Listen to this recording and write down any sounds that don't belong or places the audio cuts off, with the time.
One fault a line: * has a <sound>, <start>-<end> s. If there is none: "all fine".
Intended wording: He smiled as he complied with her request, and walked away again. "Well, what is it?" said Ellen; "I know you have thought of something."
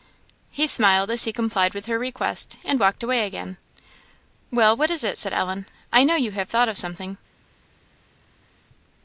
all fine